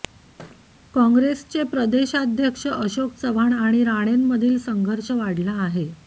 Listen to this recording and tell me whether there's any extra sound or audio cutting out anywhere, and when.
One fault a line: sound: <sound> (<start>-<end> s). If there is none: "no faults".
sound: thud (0.4-0.7 s)